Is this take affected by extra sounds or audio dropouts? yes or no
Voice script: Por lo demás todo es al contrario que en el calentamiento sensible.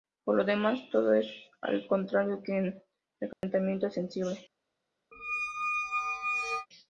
yes